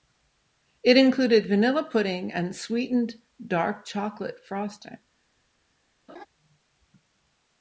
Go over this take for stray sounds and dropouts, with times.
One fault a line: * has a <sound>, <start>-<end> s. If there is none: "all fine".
* has a laugh, 6.1-6.3 s